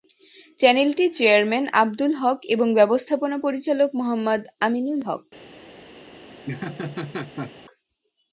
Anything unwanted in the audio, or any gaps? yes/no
yes